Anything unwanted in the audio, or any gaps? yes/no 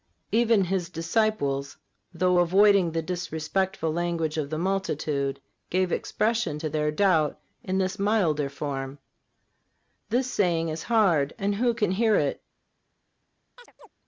yes